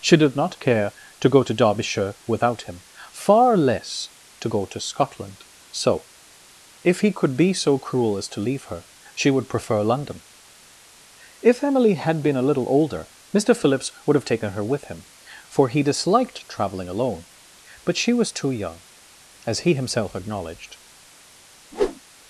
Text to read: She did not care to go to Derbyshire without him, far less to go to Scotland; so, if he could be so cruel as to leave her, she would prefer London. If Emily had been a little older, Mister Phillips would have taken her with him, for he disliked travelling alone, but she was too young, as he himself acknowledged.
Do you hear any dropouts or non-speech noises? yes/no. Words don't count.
yes